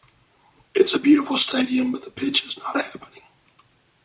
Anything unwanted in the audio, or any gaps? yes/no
no